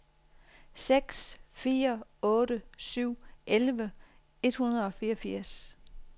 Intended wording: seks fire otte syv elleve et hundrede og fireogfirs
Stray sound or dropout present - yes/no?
no